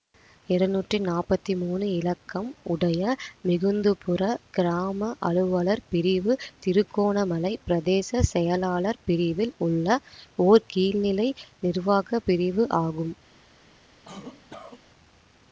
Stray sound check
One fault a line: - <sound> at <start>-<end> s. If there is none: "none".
- cough at 14.0-14.8 s